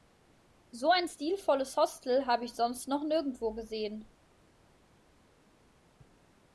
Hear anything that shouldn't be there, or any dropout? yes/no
no